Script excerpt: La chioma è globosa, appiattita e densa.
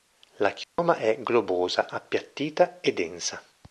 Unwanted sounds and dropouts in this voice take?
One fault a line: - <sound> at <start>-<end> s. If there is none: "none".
- dropout at 0.6-0.8 s